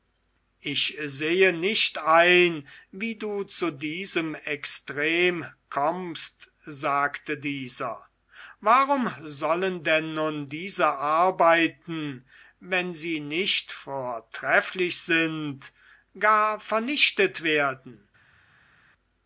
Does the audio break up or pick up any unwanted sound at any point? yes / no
no